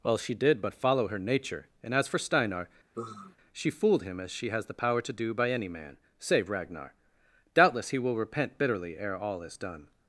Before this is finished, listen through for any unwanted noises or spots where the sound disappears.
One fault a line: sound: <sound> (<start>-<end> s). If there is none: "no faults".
sound: sigh (2.9-3.4 s)